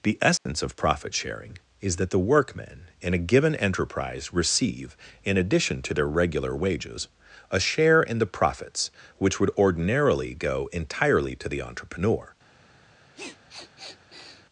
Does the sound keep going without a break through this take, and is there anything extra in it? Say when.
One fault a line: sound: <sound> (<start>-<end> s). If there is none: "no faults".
sound: dropout (0.4-0.5 s)
sound: sniff (13.1-14.5 s)